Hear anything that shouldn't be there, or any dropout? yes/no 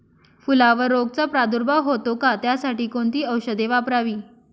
no